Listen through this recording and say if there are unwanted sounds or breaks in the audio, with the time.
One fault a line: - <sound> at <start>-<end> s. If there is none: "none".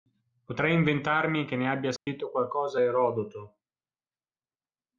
- dropout at 2.0-2.1 s